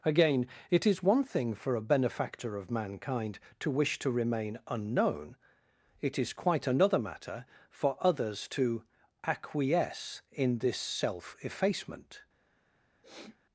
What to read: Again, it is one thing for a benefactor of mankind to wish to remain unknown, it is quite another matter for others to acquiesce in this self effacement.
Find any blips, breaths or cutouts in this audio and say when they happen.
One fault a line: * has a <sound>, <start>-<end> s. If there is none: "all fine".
* has a sniff, 13.0-13.4 s